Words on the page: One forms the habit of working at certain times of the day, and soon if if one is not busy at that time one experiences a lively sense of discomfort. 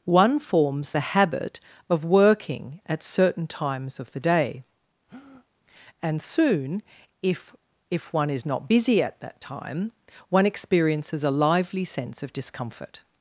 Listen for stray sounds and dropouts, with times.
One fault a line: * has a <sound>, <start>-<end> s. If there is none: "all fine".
* has a breath, 5.1-5.5 s